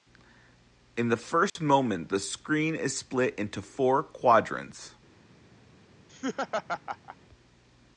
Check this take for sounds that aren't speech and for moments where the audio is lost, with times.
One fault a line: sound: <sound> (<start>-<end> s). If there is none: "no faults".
sound: dropout (1.5-1.6 s)
sound: laugh (6.1-7.2 s)